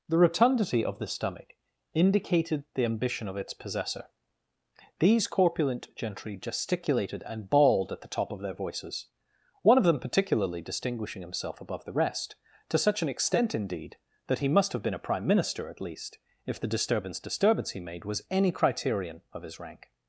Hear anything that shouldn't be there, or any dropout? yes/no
no